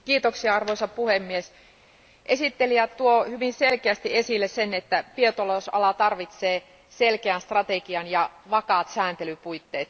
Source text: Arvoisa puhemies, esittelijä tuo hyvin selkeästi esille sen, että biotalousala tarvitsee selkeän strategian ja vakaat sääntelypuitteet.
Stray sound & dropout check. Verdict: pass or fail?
pass